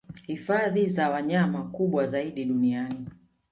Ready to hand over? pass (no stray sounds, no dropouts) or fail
pass